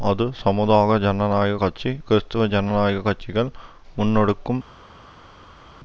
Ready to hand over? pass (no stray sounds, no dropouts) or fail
pass